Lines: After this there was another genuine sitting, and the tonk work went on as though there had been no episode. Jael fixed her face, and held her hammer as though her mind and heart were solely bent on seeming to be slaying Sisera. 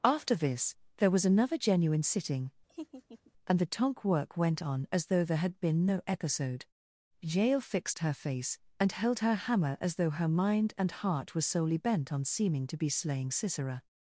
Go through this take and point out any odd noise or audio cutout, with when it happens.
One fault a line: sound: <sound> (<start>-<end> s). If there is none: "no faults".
sound: laugh (2.7-3.3 s)